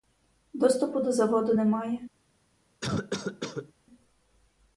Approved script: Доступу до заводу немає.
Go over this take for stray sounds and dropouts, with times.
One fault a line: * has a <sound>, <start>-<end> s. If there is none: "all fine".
* has a cough, 2.8-3.7 s